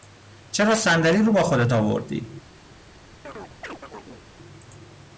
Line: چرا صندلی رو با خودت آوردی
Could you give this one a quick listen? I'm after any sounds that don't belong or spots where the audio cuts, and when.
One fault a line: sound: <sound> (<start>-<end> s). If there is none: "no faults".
sound: chirp (3.2-4.2 s)